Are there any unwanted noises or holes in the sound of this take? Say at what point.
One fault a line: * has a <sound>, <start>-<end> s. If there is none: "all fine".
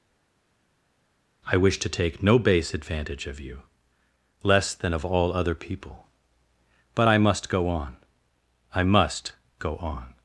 all fine